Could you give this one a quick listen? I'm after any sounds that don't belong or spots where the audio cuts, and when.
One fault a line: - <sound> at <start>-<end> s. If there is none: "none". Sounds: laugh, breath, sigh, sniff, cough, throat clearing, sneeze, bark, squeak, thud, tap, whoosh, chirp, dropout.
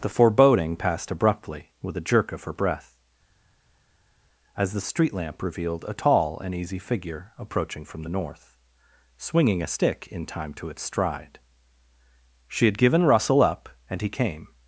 none